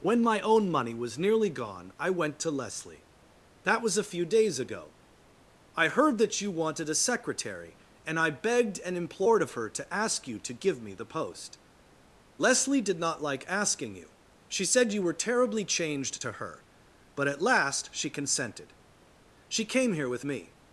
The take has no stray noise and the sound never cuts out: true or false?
true